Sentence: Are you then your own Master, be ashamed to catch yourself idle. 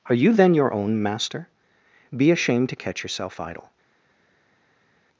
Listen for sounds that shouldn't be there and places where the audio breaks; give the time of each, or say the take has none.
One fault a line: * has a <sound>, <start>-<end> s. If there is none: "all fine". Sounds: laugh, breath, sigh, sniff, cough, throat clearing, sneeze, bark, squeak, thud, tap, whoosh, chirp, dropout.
all fine